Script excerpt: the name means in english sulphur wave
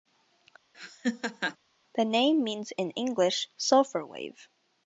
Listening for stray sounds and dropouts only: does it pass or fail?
fail